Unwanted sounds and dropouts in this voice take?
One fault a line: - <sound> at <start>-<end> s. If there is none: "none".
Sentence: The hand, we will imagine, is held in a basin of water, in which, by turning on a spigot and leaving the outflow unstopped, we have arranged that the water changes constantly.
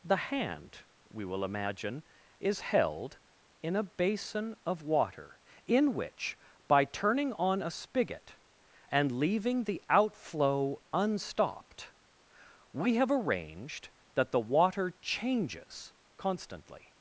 none